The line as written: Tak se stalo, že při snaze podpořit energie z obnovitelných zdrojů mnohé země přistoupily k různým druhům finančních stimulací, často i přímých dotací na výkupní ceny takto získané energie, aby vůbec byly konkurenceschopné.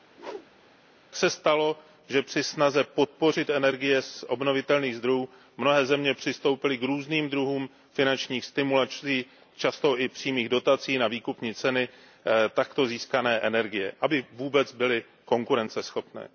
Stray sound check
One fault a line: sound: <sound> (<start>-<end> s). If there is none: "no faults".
sound: whoosh (0.1-0.8 s)